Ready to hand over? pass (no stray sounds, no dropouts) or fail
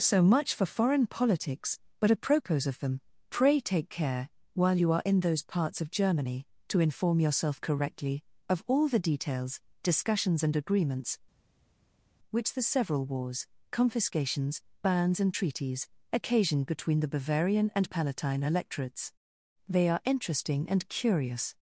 pass